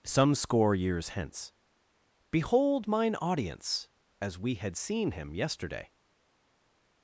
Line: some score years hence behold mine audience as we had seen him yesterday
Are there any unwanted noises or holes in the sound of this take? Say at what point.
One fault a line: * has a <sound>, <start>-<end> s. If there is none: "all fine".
all fine